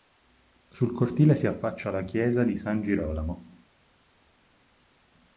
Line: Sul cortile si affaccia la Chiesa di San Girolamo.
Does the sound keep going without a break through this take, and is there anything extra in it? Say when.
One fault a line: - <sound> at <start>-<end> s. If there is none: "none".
none